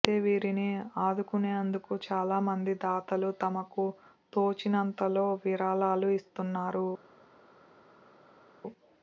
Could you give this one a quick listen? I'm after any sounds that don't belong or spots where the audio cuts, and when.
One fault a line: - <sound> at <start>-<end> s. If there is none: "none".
none